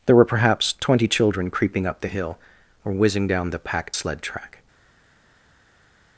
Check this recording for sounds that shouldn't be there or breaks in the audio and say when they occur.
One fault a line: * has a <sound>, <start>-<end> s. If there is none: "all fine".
all fine